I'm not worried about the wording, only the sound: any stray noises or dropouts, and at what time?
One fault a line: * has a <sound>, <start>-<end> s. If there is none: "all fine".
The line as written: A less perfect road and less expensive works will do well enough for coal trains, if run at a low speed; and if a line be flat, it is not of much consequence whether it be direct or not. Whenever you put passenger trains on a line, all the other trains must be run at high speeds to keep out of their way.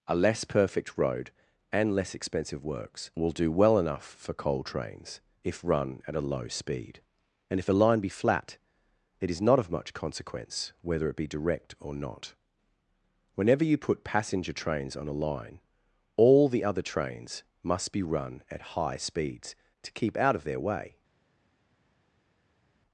all fine